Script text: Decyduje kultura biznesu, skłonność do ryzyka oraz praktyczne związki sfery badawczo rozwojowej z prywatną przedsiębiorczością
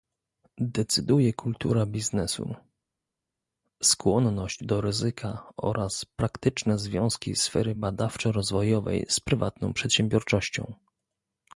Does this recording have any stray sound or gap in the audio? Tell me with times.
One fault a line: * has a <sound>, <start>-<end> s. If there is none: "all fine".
all fine